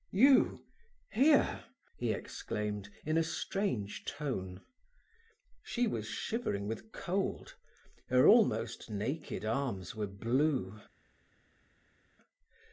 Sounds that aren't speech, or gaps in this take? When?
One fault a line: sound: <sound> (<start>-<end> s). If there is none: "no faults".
no faults